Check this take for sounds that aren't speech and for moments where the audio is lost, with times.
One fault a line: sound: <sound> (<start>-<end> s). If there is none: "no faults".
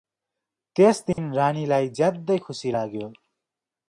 sound: dropout (1.1-1.2 s)